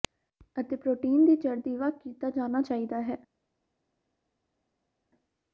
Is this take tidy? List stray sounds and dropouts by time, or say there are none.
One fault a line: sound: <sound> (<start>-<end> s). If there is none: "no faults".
no faults